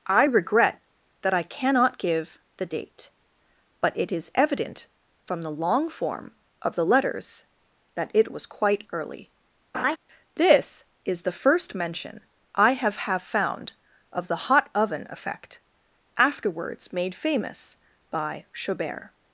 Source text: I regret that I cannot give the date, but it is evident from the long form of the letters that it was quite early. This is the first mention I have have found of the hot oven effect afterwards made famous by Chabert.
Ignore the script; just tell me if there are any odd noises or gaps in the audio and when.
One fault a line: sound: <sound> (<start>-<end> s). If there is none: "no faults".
sound: laugh (9.7-10.0 s)